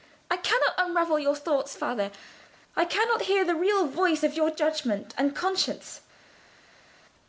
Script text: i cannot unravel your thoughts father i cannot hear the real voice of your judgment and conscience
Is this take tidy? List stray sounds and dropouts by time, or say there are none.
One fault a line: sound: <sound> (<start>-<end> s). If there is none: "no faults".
no faults